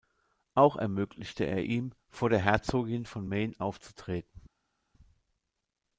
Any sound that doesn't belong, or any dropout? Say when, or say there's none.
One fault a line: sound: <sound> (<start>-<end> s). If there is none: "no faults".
no faults